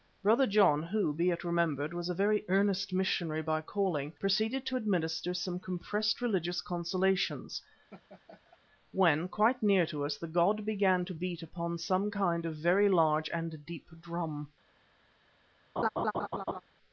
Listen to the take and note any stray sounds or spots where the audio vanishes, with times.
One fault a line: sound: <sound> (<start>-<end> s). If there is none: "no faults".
sound: laugh (7.9-8.6 s)
sound: laugh (15.8-16.6 s)